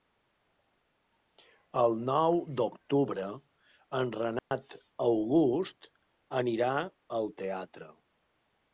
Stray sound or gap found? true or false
true